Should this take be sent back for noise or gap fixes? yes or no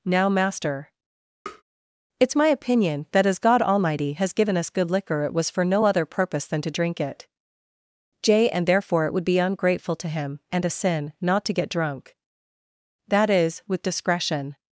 yes